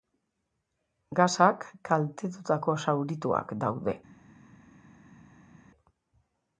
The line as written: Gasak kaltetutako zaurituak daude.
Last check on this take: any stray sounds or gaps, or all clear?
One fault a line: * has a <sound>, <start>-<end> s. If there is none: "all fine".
all fine